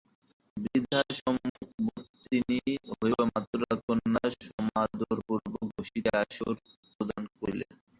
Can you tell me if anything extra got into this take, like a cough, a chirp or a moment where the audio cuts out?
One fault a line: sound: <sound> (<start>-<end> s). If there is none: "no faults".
sound: dropout (1.5-1.6 s)